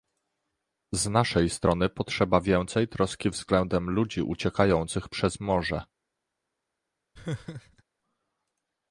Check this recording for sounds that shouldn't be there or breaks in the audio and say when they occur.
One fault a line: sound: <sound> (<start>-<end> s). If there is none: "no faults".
sound: laugh (7.1-7.8 s)